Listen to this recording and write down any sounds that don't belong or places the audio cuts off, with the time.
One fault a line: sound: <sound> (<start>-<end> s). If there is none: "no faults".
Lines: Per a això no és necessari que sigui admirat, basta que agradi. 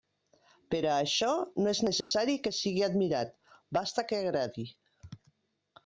sound: dropout (2.0-2.1 s)